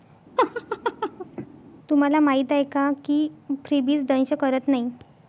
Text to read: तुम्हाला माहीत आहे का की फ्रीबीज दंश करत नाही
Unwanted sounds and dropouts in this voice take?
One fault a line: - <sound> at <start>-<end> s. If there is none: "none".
- laugh at 0.4-1.5 s